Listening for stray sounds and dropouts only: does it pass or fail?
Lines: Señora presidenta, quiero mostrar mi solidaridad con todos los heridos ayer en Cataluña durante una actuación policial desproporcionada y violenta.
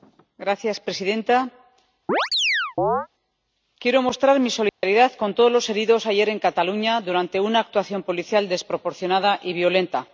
fail